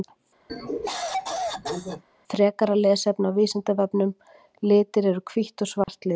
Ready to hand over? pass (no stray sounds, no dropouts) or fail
fail